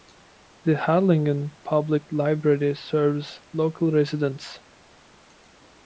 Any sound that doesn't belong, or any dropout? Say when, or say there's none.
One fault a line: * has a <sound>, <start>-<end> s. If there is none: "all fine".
all fine